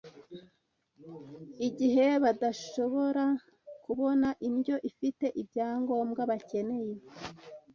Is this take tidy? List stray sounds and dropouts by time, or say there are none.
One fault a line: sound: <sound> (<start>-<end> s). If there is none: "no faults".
no faults